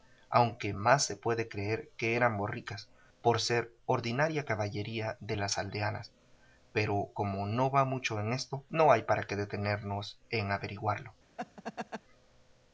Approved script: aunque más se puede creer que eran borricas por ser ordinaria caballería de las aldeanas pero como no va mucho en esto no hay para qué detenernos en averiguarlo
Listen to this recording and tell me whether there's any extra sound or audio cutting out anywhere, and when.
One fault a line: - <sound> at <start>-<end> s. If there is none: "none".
- laugh at 11.4-12.0 s